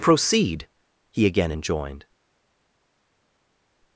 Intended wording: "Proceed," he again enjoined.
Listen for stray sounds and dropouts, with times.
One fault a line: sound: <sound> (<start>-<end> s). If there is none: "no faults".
no faults